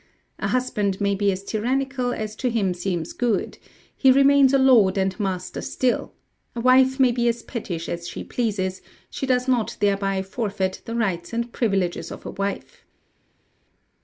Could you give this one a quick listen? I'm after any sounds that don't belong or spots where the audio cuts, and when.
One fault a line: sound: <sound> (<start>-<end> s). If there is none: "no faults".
no faults